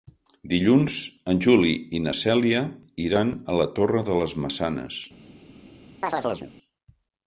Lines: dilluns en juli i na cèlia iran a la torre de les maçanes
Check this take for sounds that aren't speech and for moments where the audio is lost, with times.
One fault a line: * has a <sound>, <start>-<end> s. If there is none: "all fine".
* has a chirp, 6.0-6.5 s